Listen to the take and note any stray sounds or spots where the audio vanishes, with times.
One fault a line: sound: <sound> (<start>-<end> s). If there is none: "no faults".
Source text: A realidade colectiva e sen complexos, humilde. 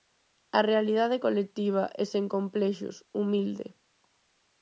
no faults